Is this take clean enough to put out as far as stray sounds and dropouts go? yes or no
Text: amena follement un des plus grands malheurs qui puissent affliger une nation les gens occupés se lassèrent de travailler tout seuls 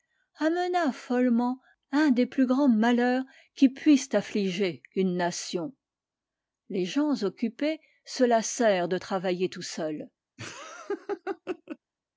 no